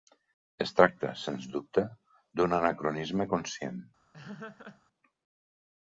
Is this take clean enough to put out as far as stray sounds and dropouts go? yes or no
no